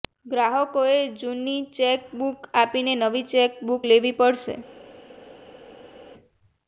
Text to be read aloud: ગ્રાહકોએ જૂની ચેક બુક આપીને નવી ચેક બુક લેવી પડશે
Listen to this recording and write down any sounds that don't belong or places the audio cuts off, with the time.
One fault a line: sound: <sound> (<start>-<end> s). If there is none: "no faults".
no faults